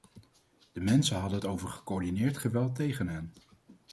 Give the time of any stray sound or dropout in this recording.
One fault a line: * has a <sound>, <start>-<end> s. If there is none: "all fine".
all fine